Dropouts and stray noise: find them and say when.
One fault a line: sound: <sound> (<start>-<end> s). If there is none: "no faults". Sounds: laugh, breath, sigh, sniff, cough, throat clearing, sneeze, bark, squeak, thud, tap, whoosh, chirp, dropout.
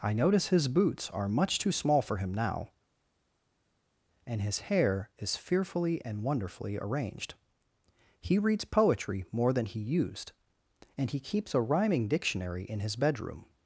no faults